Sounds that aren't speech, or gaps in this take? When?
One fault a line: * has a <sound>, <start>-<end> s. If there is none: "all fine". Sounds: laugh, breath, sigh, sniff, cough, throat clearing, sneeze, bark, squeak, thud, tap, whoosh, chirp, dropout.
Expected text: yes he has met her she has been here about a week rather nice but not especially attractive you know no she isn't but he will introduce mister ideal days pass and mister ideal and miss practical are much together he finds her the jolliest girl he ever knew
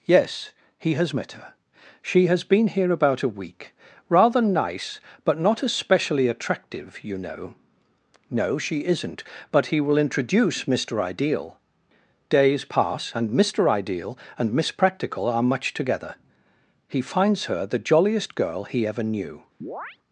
* has a chirp, 19.6-20.0 s